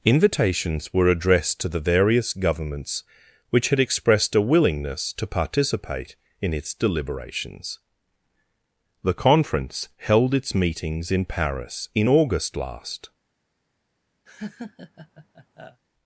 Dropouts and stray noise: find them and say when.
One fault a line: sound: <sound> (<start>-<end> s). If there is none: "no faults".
sound: laugh (14.3-15.8 s)